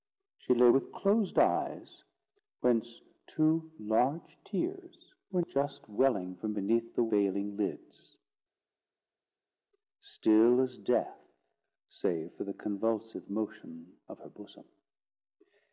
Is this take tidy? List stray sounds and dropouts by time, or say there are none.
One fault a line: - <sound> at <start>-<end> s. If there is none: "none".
none